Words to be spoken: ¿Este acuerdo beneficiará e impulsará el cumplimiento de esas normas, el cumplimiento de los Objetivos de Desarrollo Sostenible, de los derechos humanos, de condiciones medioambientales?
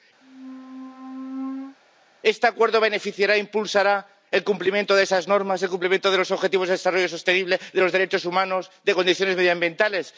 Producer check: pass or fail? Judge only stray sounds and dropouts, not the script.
fail